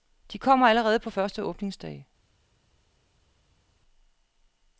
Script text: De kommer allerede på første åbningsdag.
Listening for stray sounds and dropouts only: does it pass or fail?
pass